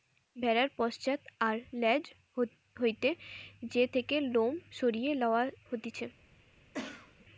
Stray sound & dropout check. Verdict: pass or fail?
fail